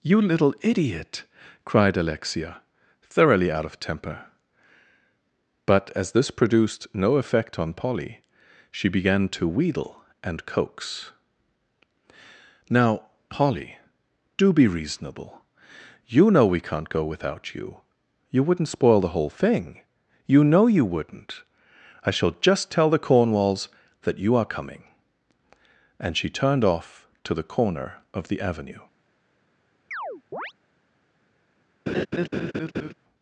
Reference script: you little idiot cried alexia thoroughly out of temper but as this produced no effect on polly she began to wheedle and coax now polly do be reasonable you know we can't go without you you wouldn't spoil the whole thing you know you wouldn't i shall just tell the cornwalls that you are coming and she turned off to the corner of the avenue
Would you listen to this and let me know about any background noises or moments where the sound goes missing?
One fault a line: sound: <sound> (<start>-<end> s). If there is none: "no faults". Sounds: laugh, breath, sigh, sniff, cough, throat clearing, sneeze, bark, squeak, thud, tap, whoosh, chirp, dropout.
sound: chirp (29.9-30.5 s)
sound: laugh (31.9-32.9 s)